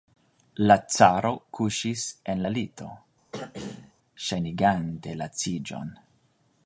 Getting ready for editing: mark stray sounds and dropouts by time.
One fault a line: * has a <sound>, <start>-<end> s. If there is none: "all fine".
* has a throat clearing, 3.3-3.9 s